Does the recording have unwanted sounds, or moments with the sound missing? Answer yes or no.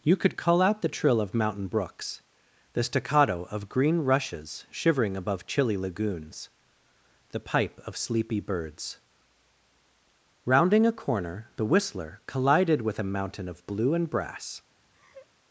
yes